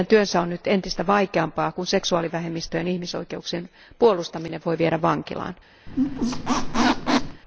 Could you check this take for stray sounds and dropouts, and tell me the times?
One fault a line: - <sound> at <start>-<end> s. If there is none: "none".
- squeak at 5.9-7.4 s